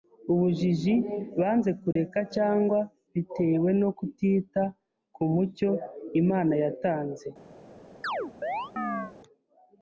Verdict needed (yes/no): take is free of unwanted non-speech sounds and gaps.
no